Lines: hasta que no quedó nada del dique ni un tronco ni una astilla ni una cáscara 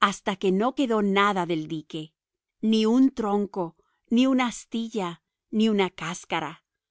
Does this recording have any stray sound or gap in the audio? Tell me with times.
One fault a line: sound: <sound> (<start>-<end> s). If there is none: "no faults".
no faults